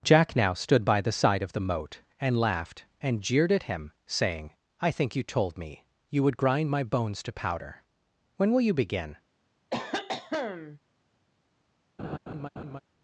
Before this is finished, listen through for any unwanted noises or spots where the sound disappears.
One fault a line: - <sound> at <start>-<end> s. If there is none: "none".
- cough at 9.7-10.8 s
- laugh at 12.0-12.8 s